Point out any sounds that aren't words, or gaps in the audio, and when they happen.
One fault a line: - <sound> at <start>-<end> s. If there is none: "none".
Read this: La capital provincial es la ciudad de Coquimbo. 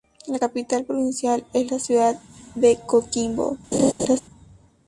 - laugh at 3.7-4.2 s